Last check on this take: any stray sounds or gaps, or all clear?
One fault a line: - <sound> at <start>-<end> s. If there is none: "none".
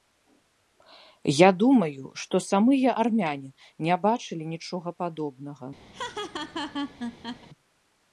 - laugh at 5.9-7.5 s